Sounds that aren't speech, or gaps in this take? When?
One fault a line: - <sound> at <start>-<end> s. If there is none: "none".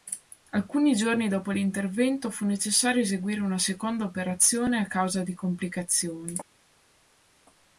none